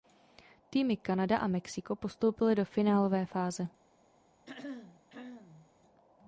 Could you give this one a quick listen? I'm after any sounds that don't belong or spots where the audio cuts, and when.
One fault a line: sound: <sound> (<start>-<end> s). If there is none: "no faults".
sound: throat clearing (4.5-5.7 s)